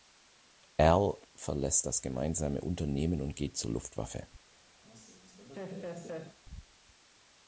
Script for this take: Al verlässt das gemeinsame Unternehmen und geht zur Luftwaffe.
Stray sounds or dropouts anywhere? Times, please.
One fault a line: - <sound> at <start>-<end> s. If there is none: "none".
- laugh at 4.8-6.4 s